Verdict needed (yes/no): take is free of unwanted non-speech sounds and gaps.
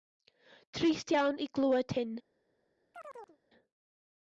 no